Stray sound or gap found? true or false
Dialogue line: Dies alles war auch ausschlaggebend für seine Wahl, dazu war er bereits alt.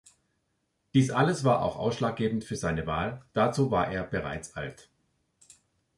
false